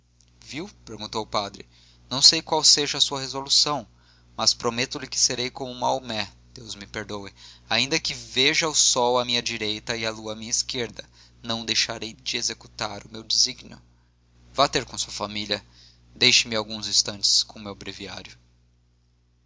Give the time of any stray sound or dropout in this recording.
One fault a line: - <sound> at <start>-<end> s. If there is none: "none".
none